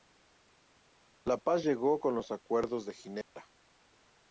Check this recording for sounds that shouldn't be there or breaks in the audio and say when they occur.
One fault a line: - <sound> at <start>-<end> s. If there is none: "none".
- dropout at 3.2-3.4 s